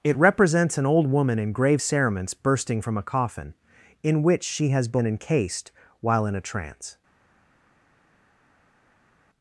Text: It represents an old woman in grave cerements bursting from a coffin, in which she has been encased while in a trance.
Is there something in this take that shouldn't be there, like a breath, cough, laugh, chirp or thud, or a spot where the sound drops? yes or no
no